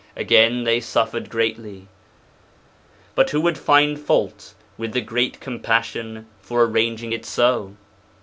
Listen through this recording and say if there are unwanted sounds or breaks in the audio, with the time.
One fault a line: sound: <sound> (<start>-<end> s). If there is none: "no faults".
no faults